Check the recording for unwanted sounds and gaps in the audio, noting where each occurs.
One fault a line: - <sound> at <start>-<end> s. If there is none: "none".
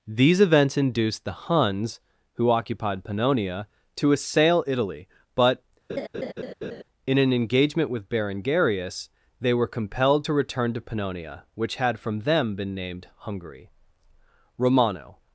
- laugh at 5.9-6.8 s